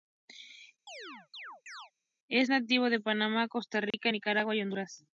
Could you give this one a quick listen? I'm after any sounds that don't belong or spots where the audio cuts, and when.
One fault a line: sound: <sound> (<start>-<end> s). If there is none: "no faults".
sound: chirp (0.9-1.9 s)
sound: dropout (3.9-3.9 s)